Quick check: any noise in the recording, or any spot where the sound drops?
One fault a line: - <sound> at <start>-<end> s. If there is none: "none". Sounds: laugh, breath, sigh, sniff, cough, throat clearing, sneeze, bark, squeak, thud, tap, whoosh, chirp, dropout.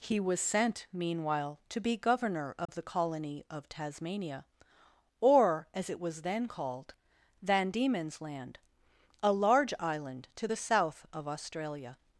- dropout at 2.7-2.7 s